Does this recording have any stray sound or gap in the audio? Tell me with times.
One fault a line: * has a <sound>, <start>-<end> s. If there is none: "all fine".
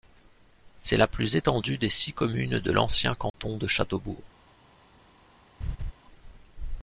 * has a dropout, 3.3-3.3 s
* has a laugh, 5.6-5.9 s